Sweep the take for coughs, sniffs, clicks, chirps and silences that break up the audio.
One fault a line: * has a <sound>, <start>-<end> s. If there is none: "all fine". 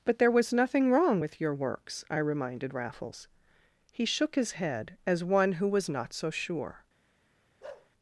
* has a bark, 7.6-7.9 s